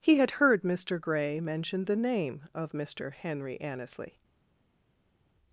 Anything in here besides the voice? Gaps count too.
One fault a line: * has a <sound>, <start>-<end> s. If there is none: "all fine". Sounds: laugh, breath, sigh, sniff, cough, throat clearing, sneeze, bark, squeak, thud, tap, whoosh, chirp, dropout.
all fine